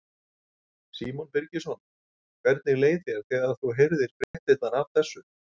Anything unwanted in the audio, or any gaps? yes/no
yes